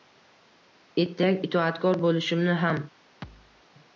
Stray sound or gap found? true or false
true